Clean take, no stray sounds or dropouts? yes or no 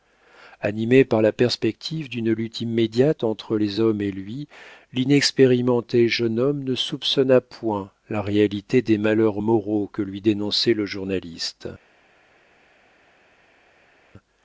yes